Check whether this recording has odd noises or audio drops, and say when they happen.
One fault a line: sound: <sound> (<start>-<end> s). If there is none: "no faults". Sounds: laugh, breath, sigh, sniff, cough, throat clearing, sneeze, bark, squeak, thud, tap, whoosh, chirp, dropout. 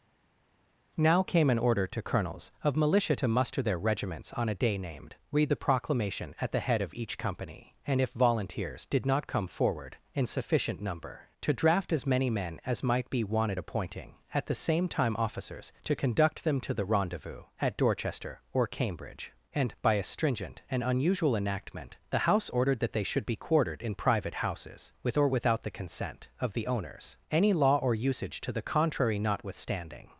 no faults